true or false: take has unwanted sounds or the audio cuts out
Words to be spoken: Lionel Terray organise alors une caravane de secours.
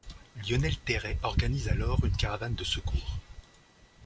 false